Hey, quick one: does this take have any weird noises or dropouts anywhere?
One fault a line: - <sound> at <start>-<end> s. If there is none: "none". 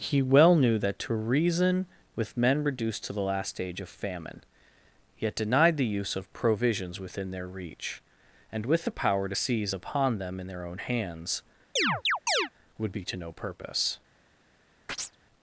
- chirp at 11.8-12.5 s
- chirp at 14.9-15.2 s